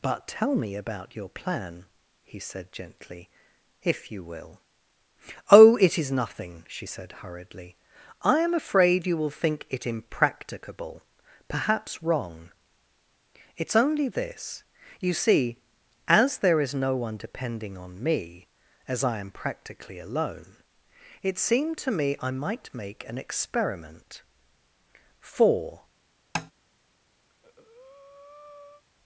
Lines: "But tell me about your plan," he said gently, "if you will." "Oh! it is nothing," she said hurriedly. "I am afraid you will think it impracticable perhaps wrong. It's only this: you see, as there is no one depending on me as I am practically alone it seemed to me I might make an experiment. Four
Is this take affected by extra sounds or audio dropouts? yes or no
yes